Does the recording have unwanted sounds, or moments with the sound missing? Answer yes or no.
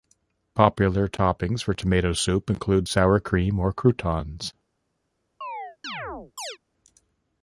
yes